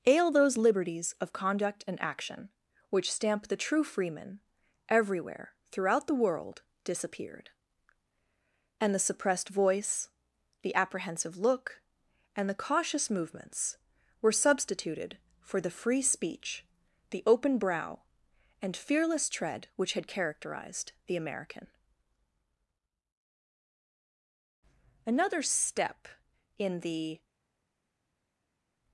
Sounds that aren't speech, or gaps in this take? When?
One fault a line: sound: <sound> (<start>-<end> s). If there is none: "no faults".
no faults